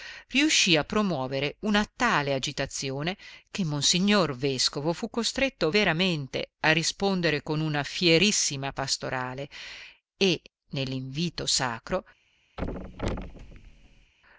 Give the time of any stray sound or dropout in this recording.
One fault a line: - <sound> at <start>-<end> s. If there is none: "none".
- thud at 12.6-14.1 s